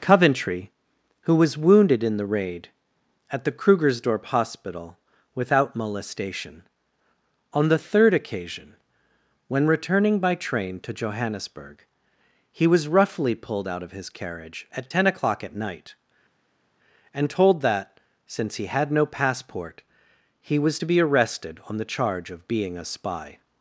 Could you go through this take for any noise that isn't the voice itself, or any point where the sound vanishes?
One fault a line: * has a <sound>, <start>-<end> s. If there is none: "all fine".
all fine